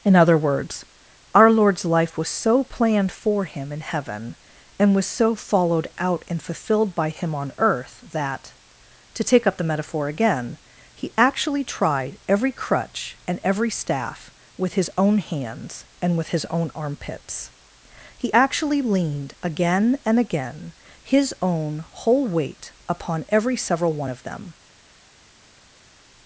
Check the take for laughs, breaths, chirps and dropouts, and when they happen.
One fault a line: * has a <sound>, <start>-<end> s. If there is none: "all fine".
all fine